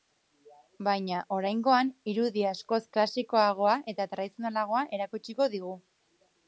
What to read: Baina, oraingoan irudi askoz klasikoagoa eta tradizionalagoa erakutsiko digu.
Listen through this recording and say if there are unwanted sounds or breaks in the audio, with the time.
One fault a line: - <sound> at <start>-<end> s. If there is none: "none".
none